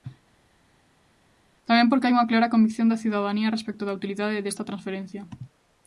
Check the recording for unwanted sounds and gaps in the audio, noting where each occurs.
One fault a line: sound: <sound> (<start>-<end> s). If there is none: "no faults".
no faults